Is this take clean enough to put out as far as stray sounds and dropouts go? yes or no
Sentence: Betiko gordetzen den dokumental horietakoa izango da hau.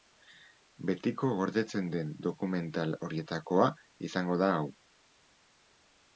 yes